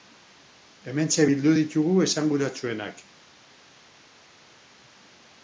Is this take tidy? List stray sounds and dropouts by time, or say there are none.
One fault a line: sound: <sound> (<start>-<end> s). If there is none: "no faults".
no faults